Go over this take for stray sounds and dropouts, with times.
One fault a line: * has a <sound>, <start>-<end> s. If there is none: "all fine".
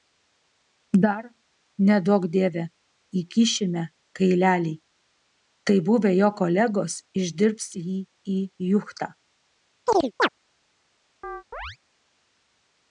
* has a chirp, 9.9-10.3 s
* has a chirp, 11.2-11.8 s